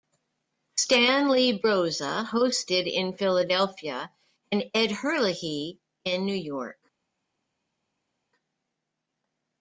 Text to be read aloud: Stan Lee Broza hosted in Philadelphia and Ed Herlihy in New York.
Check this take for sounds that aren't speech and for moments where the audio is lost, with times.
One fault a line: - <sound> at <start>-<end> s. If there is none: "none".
none